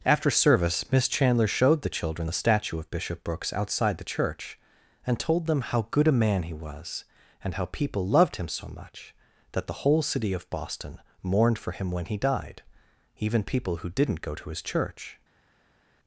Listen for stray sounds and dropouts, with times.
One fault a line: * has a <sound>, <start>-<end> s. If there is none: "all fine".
all fine